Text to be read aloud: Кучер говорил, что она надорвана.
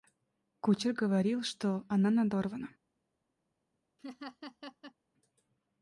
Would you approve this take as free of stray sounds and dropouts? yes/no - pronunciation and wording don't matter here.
no